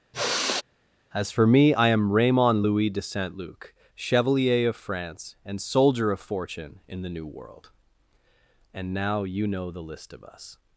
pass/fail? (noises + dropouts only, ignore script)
fail